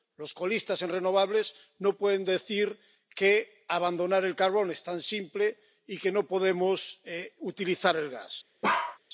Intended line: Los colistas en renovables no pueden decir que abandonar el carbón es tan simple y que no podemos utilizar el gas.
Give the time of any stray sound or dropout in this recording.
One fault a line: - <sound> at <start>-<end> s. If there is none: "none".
- bark at 8.6-9.0 s